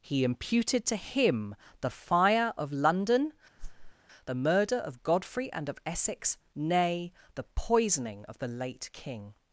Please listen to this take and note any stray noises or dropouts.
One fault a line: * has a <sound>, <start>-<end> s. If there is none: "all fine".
* has a whoosh, 3.6-3.9 s